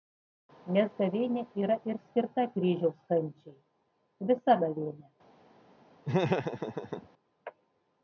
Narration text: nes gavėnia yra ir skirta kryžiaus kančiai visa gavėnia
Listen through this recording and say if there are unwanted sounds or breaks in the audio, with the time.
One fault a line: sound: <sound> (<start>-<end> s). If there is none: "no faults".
sound: laugh (6.0-7.1 s)